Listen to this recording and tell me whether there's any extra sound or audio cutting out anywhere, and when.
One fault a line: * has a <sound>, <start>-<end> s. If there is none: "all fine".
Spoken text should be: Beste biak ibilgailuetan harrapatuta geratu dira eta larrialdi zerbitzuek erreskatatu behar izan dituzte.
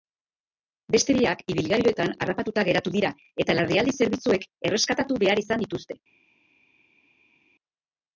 all fine